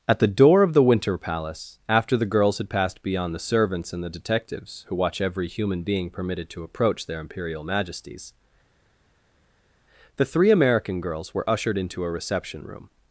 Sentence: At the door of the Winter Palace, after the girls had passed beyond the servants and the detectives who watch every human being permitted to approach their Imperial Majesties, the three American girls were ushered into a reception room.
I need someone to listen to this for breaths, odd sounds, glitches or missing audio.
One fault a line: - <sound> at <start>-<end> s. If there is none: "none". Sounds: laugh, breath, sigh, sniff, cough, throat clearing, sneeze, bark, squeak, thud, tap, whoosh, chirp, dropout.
none